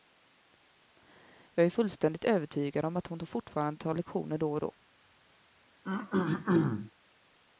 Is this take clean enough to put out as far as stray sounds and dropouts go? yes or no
no